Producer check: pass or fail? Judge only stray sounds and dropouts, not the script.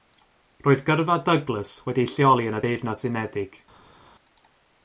pass